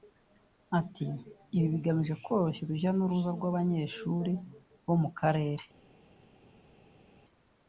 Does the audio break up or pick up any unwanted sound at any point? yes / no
no